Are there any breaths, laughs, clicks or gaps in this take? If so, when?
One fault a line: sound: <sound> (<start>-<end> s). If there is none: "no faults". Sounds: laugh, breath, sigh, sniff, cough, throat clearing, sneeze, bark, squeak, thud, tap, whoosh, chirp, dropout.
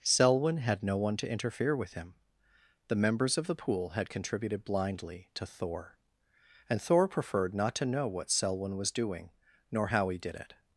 no faults